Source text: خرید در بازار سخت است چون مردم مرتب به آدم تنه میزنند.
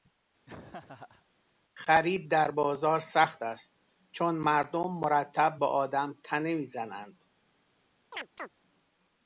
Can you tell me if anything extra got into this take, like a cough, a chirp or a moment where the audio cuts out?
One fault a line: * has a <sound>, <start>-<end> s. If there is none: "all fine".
* has a laugh, 0.5-1.3 s
* has a chirp, 8.1-8.5 s